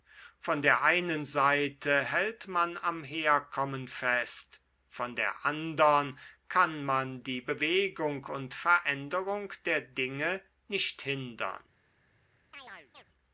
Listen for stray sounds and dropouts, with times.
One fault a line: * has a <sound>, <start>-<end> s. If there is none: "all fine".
* has a chirp, 12.5-13.0 s